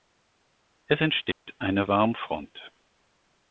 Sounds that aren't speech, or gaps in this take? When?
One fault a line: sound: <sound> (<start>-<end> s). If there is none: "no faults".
sound: dropout (1.3-1.5 s)